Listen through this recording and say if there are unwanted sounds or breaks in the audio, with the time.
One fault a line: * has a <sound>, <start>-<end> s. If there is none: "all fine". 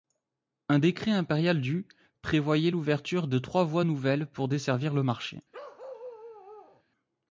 * has a bark, 5.5-6.8 s